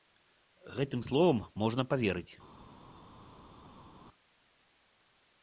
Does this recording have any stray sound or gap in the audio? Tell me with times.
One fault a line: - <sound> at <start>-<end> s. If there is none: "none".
none